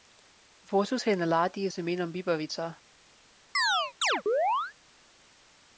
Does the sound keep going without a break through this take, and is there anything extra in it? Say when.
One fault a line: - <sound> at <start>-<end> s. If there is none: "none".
- chirp at 3.5-4.7 s